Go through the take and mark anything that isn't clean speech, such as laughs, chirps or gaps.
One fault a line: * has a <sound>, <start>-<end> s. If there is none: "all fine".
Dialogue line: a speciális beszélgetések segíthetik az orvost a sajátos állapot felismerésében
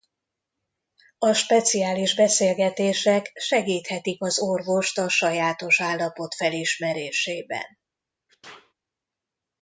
* has a sneeze, 8.3-8.7 s